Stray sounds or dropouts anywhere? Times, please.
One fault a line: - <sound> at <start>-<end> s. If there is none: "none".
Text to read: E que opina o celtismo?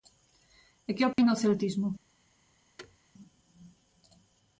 - dropout at 1.1-1.2 s
- thud at 2.8-3.0 s